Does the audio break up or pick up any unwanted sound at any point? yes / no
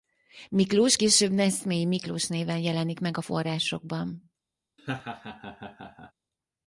yes